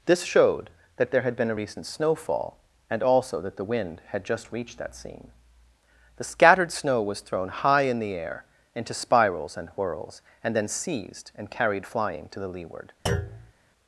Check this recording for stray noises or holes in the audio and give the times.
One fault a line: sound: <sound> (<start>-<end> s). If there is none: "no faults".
sound: thud (13.1-13.5 s)